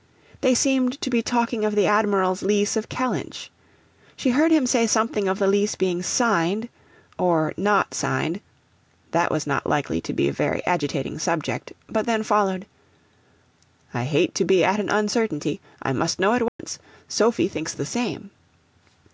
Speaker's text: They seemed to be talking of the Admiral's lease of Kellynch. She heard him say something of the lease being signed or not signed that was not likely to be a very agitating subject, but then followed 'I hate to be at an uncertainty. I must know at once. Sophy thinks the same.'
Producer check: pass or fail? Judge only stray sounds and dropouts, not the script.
fail